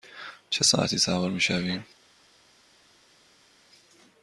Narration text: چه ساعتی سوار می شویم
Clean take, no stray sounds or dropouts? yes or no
yes